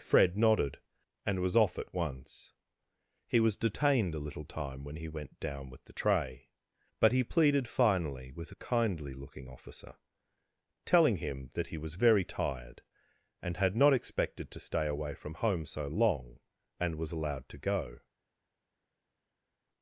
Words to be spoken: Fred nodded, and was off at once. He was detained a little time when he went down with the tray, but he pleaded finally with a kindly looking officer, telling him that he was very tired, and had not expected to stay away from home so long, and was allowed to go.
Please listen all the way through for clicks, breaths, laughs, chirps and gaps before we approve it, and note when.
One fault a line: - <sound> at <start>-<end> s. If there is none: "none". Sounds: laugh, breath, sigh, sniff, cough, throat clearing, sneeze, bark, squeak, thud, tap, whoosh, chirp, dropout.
none